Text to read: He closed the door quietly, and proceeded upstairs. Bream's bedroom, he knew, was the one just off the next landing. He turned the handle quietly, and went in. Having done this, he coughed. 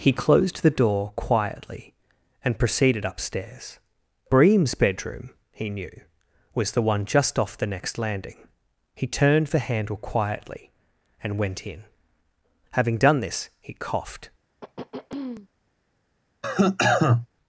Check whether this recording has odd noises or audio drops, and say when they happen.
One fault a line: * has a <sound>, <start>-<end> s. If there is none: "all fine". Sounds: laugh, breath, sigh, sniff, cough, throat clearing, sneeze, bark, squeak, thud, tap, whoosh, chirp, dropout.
* has a throat clearing, 14.6-15.5 s
* has a cough, 16.4-17.3 s